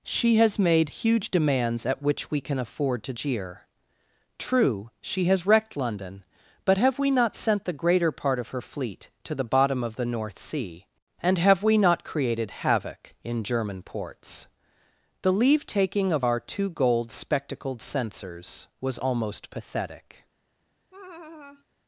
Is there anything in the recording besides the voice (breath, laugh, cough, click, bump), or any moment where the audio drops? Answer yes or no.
yes